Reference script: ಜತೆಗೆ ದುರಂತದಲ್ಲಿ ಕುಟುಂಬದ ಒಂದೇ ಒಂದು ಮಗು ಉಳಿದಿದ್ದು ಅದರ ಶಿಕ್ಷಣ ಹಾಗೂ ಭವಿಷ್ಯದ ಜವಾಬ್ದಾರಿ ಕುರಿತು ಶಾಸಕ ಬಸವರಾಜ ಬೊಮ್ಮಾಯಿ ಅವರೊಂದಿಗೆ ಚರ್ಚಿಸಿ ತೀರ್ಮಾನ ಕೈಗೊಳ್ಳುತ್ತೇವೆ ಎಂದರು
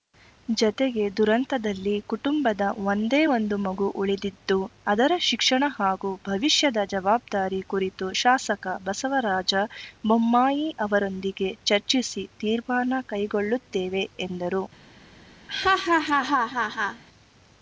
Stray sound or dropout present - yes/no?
yes